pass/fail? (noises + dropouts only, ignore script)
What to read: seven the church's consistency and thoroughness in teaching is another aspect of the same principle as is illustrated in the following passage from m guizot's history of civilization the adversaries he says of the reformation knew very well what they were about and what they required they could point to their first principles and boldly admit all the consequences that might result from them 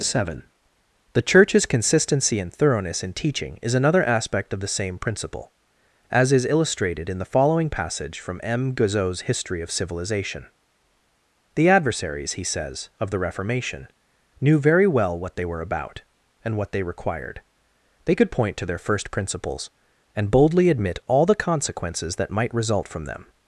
pass